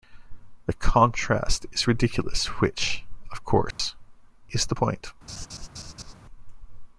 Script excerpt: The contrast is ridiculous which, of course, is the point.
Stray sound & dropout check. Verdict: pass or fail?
fail